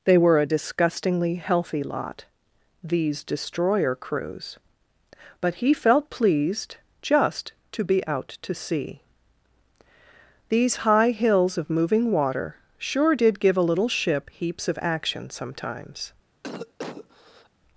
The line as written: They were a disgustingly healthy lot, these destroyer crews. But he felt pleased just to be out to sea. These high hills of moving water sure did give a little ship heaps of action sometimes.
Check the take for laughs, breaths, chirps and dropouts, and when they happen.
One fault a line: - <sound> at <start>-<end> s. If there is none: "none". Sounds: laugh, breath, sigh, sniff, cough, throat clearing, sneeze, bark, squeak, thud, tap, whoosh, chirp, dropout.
- cough at 16.4-17.5 s